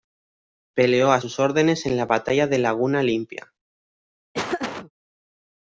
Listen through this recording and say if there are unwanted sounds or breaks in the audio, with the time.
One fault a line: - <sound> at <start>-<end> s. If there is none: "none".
- laugh at 4.3-4.9 s